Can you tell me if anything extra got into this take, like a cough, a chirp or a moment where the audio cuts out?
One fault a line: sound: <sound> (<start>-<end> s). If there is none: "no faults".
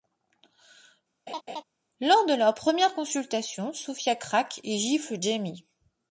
sound: laugh (1.3-1.6 s)